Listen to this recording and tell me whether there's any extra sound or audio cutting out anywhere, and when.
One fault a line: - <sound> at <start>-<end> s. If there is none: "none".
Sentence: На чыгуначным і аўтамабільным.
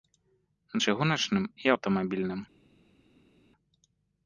none